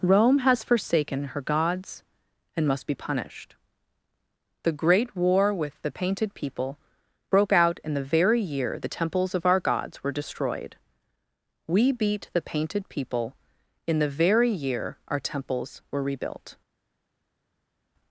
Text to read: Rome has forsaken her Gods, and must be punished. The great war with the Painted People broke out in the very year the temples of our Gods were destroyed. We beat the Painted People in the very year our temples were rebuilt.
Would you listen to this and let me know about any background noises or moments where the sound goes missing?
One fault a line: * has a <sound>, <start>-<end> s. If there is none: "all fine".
all fine